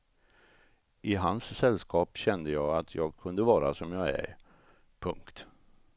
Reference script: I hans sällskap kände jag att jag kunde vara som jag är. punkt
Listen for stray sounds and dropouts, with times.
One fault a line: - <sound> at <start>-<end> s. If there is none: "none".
none